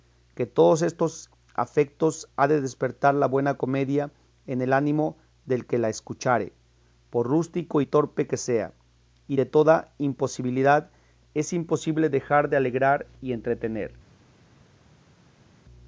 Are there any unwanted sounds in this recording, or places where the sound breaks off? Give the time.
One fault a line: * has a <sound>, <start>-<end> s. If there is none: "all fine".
all fine